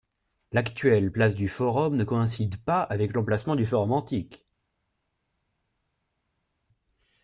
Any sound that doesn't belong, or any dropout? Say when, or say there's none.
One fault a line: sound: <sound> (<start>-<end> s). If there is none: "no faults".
no faults